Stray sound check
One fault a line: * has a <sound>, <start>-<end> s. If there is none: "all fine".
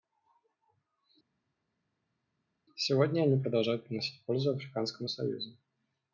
all fine